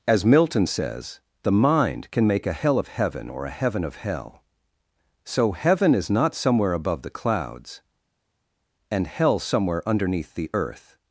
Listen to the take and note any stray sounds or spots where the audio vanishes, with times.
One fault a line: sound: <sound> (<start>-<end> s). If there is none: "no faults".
no faults